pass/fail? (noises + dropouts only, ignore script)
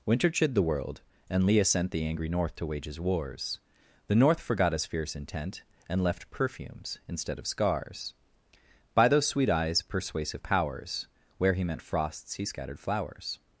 pass